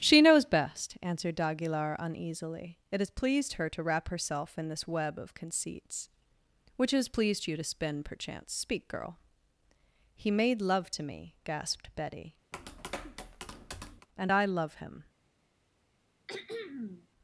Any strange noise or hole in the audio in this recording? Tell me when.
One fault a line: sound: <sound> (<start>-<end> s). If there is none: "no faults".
sound: tap (12.5-14.1 s)
sound: throat clearing (16.3-17.1 s)